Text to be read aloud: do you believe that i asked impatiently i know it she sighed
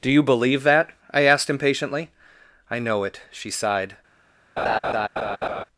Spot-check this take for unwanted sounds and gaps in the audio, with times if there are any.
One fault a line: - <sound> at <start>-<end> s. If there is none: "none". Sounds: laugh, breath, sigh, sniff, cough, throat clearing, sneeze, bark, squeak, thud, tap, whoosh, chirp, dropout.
- laugh at 4.6-5.6 s